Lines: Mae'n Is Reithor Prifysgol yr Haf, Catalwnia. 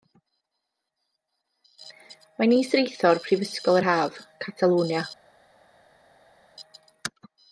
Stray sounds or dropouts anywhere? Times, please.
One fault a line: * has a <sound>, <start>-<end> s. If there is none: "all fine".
all fine